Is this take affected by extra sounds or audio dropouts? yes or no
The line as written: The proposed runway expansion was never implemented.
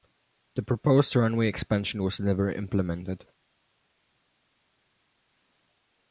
no